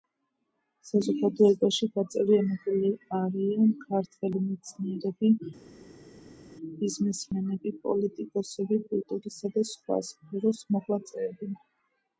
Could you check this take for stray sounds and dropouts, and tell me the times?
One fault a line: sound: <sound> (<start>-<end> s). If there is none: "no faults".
no faults